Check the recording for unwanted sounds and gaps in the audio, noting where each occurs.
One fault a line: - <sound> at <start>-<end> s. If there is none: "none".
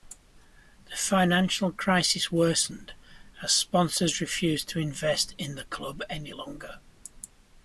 none